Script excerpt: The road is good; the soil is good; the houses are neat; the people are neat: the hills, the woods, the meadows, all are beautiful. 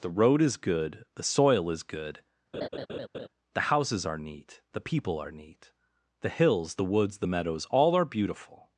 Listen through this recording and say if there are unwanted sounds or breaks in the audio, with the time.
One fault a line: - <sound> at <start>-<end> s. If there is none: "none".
- laugh at 2.5-3.3 s